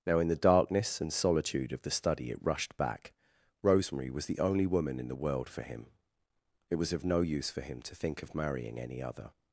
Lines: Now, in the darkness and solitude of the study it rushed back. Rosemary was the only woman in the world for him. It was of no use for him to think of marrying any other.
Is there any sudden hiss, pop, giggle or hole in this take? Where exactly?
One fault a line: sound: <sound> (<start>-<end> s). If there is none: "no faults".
no faults